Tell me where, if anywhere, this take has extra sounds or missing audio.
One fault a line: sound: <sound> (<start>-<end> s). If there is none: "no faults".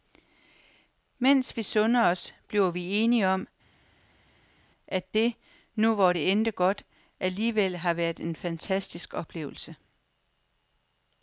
no faults